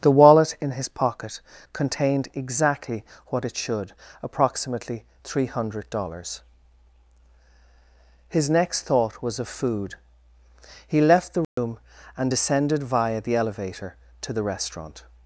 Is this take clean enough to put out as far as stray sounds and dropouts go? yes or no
no